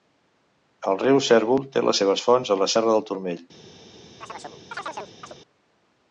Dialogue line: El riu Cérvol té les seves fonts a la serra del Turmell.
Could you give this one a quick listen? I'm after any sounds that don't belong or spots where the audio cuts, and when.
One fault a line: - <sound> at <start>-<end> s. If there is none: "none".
- chirp at 4.2-5.4 s